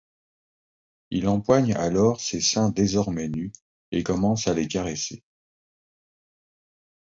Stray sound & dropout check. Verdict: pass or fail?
pass